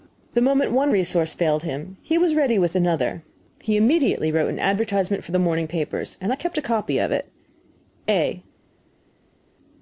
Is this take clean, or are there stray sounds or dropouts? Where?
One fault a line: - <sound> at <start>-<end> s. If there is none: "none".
none